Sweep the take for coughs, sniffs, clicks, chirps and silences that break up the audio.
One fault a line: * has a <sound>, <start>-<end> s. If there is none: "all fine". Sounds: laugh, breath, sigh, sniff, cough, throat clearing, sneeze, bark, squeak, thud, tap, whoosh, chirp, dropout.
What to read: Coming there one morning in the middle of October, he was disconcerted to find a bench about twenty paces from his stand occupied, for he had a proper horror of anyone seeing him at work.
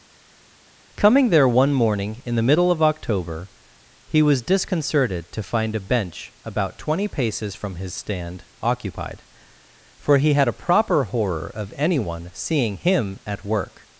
all fine